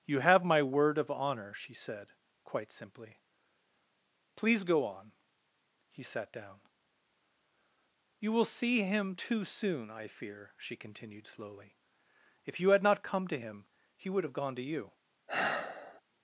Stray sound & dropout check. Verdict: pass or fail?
fail